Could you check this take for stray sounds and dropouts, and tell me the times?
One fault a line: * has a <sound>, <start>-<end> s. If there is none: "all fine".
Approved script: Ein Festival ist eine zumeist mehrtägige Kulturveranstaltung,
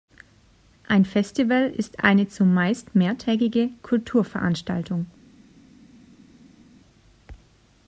all fine